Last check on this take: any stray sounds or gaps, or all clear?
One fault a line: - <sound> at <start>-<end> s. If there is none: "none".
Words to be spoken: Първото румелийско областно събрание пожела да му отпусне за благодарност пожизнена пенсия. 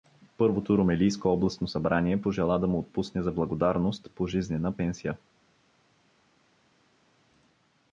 none